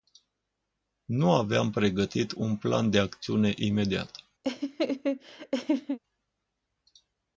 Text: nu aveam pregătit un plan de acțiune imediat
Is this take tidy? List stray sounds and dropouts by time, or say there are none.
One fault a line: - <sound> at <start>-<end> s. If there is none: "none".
- laugh at 4.4-6.0 s